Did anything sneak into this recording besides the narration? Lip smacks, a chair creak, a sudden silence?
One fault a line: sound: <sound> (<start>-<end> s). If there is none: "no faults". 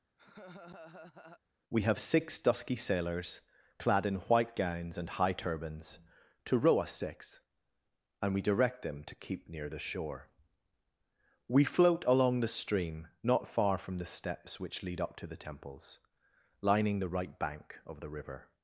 sound: laugh (0.2-1.4 s)